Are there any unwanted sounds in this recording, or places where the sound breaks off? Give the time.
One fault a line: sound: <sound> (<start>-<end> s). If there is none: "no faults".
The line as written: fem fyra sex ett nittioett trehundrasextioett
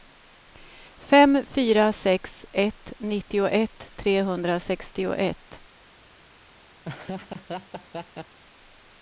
sound: laugh (6.8-8.4 s)